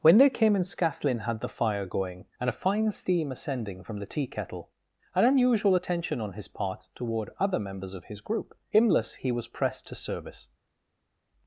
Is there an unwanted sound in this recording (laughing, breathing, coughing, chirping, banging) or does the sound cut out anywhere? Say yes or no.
no